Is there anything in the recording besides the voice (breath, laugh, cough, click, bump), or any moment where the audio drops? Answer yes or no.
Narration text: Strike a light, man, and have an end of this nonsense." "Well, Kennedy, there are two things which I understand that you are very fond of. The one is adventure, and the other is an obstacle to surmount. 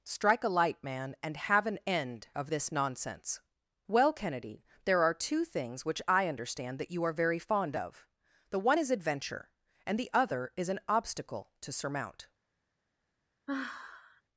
yes